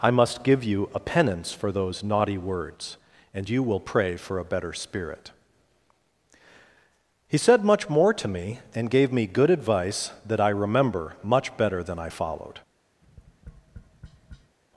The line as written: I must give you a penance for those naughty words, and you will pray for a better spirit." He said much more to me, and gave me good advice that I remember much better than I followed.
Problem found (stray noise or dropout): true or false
true